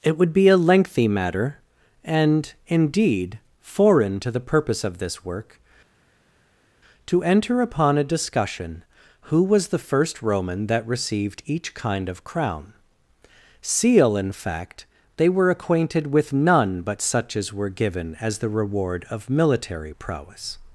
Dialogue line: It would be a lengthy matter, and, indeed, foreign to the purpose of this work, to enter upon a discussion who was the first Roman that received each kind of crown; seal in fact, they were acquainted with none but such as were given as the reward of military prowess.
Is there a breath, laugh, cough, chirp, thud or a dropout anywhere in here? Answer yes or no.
no